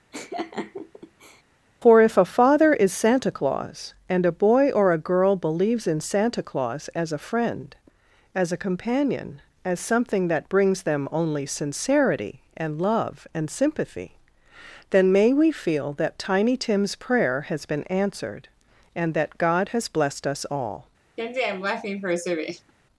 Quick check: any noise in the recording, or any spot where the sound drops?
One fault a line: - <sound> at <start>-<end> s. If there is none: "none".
- laugh at 0.1-1.4 s
- laugh at 21.2-22.7 s